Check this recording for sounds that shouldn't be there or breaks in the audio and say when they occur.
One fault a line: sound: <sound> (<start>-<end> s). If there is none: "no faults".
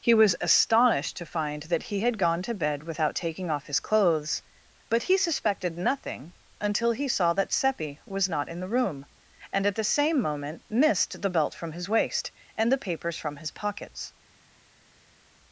no faults